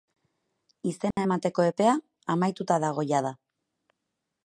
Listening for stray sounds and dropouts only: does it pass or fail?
fail